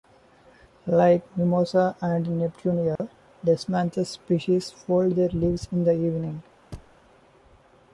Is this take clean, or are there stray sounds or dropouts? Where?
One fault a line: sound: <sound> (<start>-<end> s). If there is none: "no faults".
sound: dropout (3.0-3.0 s)
sound: thud (6.7-7.0 s)